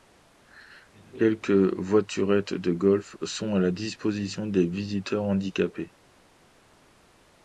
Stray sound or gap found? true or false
false